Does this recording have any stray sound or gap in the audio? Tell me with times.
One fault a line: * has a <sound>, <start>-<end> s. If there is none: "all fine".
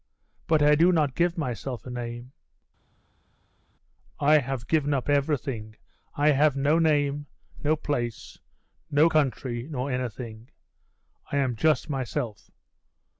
all fine